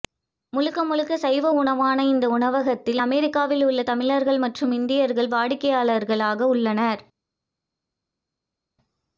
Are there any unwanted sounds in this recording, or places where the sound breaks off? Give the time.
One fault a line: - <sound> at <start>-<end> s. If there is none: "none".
none